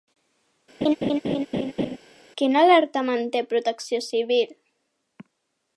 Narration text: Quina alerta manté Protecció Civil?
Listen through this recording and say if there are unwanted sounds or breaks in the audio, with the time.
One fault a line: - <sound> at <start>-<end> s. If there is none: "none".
- laugh at 0.8-2.0 s